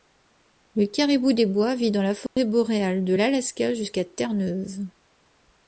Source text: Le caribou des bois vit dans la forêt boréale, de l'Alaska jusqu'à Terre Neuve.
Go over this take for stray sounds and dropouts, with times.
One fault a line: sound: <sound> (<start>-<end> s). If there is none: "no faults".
sound: dropout (2.3-2.4 s)